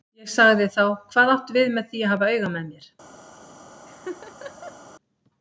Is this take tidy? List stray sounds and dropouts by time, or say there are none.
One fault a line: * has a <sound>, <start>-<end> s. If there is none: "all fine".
* has a laugh, 3.9-4.8 s